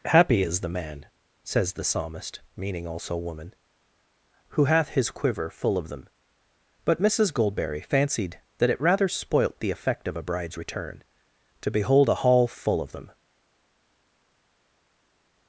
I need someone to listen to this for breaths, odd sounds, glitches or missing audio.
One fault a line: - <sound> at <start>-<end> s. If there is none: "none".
none